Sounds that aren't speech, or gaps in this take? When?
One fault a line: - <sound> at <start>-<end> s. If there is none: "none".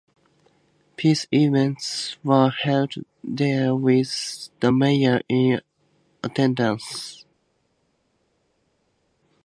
none